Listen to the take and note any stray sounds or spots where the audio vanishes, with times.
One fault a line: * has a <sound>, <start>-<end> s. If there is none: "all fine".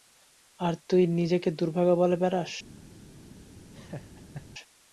* has a laugh, 3.7-4.5 s